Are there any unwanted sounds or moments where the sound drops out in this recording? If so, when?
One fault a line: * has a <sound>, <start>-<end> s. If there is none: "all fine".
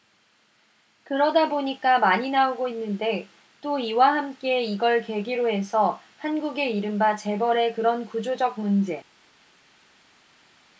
all fine